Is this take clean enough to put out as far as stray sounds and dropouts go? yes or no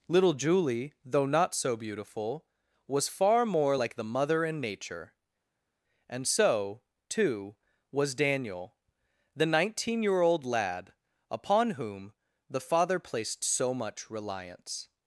yes